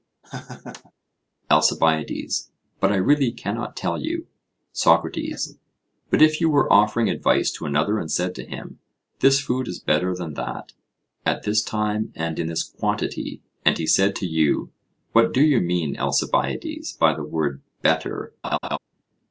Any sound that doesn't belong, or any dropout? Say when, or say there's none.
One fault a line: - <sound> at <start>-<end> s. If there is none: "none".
- laugh at 0.2-0.9 s
- laugh at 18.4-18.8 s